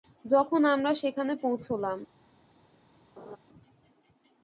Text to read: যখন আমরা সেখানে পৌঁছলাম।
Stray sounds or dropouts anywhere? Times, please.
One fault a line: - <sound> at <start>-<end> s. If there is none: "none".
- laugh at 3.2-3.4 s